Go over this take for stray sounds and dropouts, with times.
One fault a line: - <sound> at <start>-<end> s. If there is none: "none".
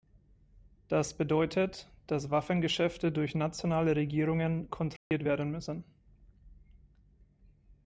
- dropout at 5.0-5.1 s